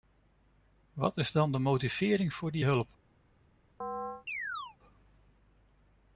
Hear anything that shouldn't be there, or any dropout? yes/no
yes